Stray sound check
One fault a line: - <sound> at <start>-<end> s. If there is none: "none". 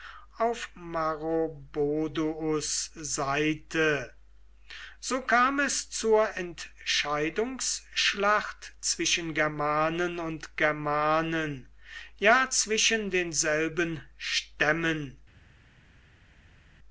none